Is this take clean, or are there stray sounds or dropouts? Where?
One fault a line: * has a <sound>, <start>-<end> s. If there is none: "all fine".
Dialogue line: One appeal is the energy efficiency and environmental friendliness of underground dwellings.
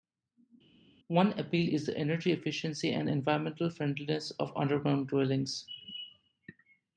all fine